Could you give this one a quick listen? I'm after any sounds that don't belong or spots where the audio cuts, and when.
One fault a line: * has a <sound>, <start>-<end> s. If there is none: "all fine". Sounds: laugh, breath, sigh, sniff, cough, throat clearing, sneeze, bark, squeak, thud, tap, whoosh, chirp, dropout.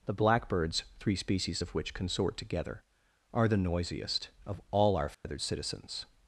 * has a dropout, 5.1-5.2 s